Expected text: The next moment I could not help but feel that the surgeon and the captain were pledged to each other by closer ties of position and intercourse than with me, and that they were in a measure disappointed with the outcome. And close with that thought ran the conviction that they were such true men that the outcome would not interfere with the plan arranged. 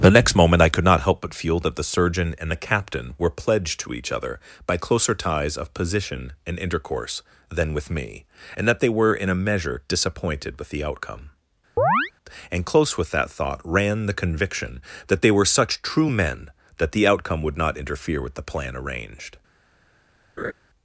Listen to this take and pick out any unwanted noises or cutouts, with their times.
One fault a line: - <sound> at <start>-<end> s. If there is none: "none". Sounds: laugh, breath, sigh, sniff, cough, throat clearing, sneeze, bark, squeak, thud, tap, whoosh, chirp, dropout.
- chirp at 11.8-12.1 s
- laugh at 20.4-20.5 s